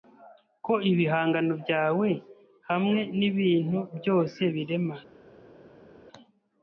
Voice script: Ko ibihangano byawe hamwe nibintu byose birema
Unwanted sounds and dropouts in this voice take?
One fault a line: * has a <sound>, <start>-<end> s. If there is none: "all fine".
all fine